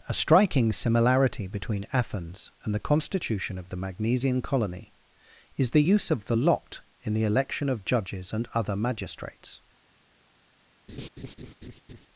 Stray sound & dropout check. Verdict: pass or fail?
fail